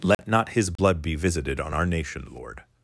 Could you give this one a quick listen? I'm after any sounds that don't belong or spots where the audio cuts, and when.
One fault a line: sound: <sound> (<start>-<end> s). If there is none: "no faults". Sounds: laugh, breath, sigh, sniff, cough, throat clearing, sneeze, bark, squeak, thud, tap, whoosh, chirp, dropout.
sound: dropout (0.1-0.2 s)
sound: dropout (0.8-0.8 s)